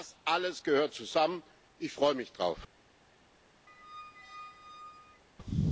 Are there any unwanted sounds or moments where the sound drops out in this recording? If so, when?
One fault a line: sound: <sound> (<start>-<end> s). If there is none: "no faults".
sound: squeak (3.7-5.2 s)